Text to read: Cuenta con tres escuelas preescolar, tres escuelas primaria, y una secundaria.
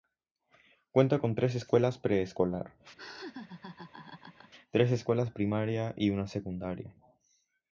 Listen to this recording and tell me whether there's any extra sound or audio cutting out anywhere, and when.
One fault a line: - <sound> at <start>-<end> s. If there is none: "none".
- laugh at 3.0-4.5 s